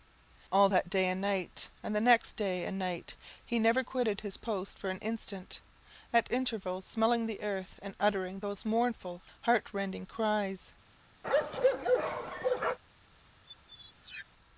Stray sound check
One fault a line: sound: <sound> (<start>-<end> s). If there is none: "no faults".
sound: bark (11.2-12.8 s)
sound: squeak (13.4-14.3 s)